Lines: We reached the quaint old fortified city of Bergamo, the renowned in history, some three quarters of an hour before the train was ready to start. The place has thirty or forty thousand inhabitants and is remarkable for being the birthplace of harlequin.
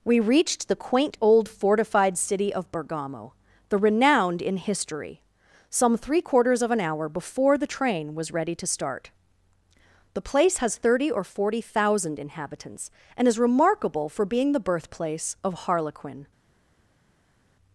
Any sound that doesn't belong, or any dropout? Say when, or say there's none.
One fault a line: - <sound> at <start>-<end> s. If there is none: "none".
none